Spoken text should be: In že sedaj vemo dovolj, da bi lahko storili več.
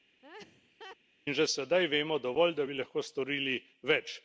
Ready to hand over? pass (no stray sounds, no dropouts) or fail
fail